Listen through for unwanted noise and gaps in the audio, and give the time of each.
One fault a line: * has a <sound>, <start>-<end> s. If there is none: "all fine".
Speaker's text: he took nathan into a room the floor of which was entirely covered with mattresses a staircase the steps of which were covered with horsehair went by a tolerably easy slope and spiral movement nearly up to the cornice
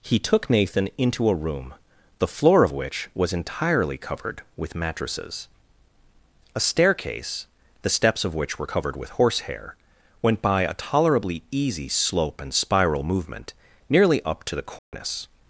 * has a dropout, 14.8-14.9 s